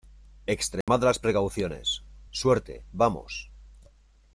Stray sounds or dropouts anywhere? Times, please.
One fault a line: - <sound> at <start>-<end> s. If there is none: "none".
- dropout at 0.8-0.9 s